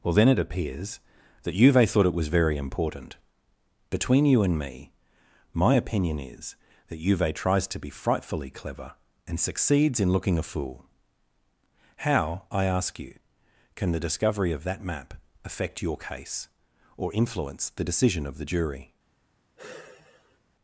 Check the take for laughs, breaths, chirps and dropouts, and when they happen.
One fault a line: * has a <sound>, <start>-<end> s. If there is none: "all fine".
* has a sigh, 19.6-20.4 s